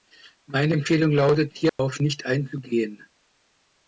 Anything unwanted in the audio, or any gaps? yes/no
yes